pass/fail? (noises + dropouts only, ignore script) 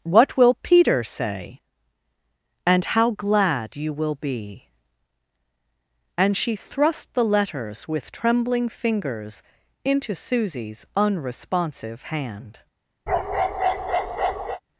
fail